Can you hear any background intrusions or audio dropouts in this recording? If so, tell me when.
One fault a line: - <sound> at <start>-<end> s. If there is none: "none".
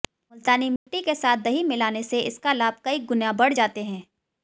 - dropout at 0.8-0.9 s